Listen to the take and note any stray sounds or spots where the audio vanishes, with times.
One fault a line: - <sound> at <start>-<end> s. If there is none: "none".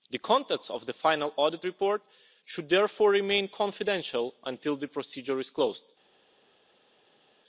none